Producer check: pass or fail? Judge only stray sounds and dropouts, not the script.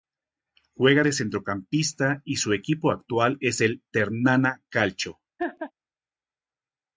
fail